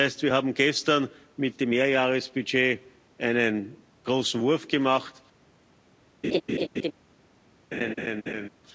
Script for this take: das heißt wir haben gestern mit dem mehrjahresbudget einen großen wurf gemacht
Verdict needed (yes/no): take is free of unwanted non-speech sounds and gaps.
no